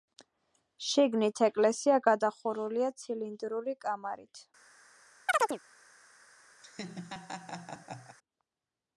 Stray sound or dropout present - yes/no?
yes